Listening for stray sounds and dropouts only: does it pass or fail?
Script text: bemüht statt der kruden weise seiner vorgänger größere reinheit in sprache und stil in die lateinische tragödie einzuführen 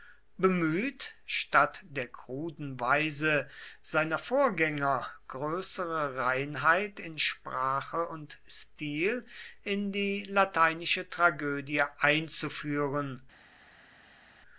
pass